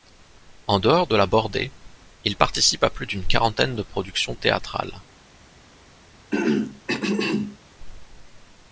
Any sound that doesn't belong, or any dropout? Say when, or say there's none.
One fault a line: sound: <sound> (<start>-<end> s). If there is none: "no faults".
sound: throat clearing (6.3-7.6 s)